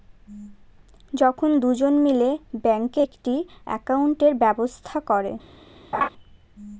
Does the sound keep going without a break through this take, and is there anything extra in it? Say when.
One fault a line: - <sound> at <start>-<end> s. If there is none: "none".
- laugh at 5.9-6.1 s